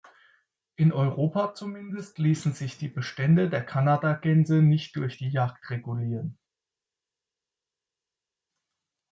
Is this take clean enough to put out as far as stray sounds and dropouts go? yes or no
yes